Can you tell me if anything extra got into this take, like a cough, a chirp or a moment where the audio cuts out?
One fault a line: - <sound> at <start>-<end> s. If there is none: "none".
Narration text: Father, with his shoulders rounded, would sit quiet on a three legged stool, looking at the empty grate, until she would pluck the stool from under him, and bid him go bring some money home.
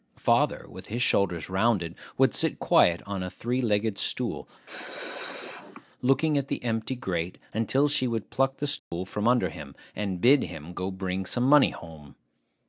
- sneeze at 4.7-5.9 s
- dropout at 8.8-8.9 s